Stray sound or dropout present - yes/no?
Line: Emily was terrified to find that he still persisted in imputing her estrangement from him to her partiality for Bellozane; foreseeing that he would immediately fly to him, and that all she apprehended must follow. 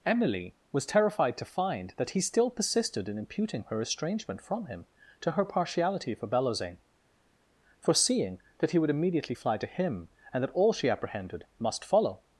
no